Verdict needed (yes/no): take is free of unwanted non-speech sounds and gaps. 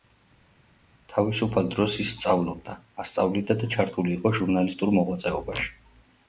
yes